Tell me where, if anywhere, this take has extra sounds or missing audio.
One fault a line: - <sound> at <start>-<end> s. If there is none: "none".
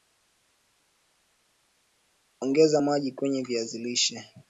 none